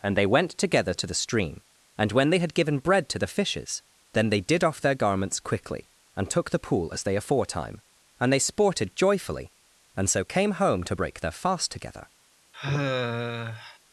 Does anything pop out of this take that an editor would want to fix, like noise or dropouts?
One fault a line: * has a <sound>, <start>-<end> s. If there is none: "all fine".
* has a sigh, 12.5-13.8 s